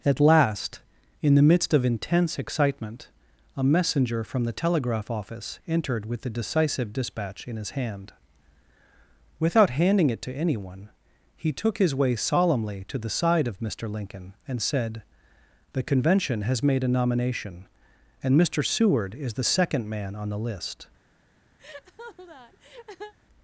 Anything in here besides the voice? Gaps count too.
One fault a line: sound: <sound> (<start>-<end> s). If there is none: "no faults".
sound: laugh (21.6-23.1 s)